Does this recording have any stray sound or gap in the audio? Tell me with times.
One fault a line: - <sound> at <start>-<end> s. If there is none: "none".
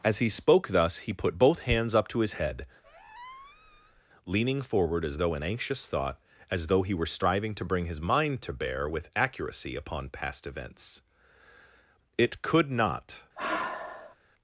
- squeak at 2.8-4.0 s
- sigh at 13.4-14.2 s